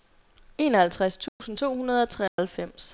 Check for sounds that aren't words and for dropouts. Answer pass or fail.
fail